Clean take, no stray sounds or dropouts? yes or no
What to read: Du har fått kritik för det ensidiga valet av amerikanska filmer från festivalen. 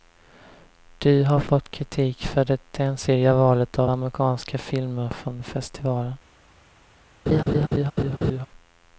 no